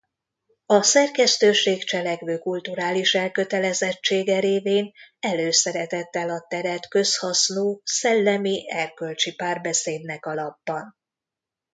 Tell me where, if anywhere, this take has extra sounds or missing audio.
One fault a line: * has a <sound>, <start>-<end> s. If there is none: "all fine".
all fine